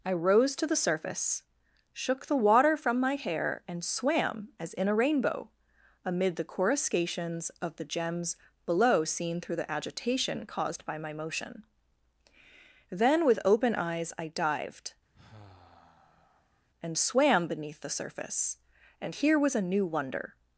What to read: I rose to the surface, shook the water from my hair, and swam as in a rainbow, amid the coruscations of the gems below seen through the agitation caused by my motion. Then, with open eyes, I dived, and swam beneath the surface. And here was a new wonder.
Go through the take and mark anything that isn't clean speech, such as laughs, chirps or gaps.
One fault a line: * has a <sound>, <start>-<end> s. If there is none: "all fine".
* has a sigh, 15.1-16.7 s